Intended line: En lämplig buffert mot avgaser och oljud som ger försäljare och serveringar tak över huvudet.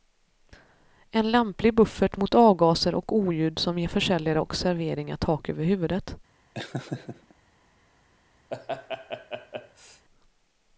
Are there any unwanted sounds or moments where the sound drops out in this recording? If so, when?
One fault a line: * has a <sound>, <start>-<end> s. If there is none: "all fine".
* has a laugh, 6.5-7.3 s
* has a laugh, 8.5-10.1 s